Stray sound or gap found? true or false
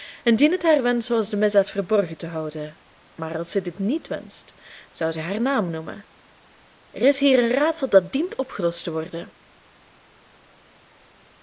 false